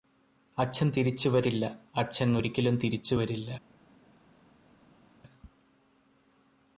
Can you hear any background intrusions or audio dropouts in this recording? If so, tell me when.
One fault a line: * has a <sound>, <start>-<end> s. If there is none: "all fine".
all fine